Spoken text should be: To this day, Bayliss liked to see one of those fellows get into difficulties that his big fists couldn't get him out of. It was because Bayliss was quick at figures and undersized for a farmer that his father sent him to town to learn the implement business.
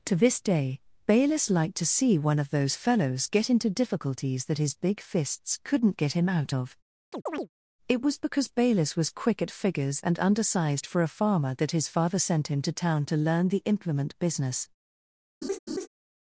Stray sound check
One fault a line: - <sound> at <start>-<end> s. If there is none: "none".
- chirp at 7.1-7.5 s
- laugh at 15.4-15.9 s